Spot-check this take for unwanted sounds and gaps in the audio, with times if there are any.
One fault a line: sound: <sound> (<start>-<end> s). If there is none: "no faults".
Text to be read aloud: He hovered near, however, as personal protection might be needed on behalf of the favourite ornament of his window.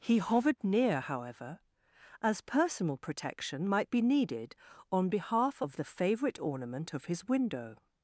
no faults